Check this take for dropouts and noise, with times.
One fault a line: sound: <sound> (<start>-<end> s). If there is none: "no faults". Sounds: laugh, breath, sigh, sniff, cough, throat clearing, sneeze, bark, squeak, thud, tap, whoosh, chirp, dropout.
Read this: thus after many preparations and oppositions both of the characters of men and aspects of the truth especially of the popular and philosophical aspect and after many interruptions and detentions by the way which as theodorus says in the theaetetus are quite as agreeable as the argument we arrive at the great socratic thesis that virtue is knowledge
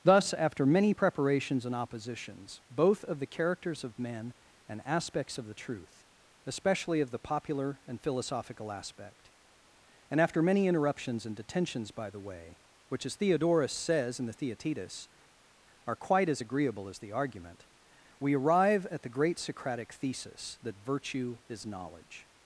no faults